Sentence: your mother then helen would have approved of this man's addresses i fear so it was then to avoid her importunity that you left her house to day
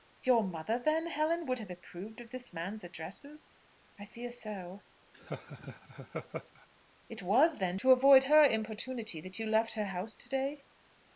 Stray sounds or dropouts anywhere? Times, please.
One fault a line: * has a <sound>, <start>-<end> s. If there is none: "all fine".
* has a laugh, 5.1-6.7 s